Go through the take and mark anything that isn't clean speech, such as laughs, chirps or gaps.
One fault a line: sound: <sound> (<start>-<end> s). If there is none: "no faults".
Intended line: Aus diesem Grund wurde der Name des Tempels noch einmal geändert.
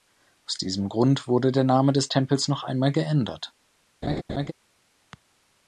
sound: laugh (4.0-4.5 s)